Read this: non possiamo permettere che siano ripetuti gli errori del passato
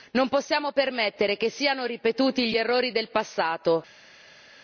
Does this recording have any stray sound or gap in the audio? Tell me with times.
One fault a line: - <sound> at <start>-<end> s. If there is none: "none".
none